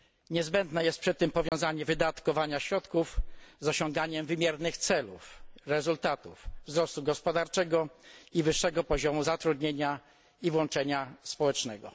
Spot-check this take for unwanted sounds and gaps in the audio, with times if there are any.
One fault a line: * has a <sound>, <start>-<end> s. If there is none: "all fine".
* has a dropout, 1.5-1.5 s